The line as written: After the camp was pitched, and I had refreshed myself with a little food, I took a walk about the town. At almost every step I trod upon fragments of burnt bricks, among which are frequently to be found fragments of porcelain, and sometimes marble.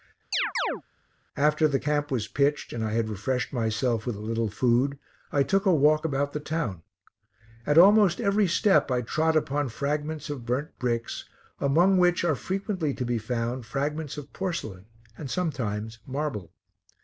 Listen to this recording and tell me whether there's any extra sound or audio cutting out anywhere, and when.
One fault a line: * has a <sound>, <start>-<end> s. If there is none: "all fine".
* has a chirp, 0.3-0.8 s